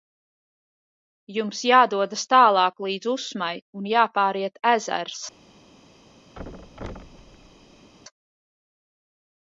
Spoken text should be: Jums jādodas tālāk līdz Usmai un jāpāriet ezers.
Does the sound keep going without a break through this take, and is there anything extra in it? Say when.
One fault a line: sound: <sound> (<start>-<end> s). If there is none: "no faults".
sound: thud (6.4-7.9 s)